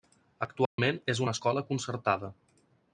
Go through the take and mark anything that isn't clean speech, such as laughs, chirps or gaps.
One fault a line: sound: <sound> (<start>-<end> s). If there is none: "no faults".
sound: dropout (0.7-0.8 s)